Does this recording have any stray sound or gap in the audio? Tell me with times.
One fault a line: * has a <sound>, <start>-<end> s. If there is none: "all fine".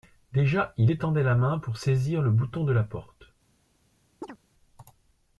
* has a chirp, 4.2-4.4 s